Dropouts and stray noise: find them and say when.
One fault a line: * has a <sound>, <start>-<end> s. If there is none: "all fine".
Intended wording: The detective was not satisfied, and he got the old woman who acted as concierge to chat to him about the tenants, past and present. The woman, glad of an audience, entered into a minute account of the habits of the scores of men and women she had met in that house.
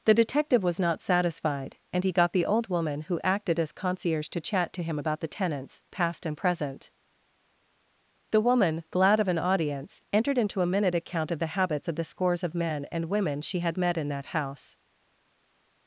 all fine